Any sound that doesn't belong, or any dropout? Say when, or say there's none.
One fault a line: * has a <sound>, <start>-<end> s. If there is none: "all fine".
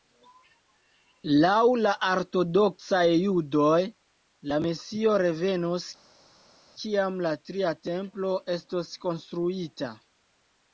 all fine